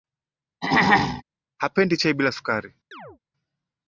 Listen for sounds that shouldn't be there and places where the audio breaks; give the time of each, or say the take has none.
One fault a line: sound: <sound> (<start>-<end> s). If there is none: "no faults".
sound: throat clearing (0.6-1.2 s)
sound: chirp (2.9-3.2 s)